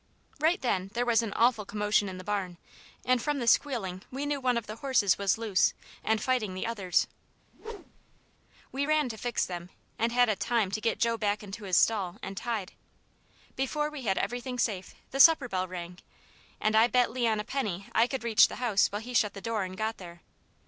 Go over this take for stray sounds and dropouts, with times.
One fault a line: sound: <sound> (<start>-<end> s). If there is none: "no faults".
sound: whoosh (7.5-8.2 s)